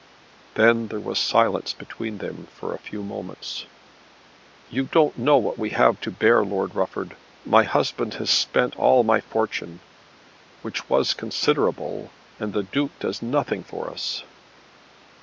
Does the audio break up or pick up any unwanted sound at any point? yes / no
no